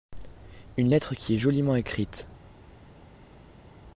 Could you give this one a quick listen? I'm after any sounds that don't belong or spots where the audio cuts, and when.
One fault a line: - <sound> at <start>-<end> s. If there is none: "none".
none